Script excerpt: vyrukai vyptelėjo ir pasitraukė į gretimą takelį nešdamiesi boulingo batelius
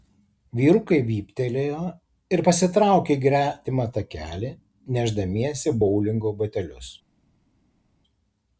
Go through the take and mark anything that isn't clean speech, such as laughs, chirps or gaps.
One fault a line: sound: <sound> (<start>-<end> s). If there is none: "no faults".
no faults